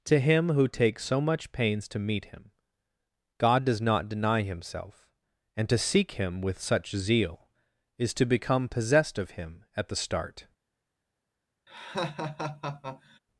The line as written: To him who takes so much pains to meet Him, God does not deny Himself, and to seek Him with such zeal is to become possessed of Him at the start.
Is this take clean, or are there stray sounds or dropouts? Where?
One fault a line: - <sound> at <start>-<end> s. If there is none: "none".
- laugh at 11.7-13.2 s